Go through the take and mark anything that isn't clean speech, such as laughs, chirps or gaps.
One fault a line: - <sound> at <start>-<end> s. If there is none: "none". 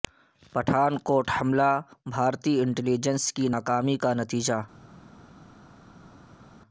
none